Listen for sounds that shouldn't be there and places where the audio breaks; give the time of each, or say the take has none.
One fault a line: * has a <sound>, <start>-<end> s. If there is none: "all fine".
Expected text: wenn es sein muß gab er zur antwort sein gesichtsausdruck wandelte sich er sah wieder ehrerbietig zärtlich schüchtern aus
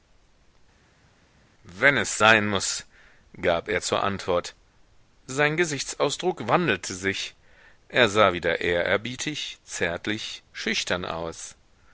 all fine